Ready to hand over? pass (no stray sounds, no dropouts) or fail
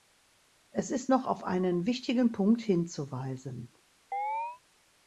fail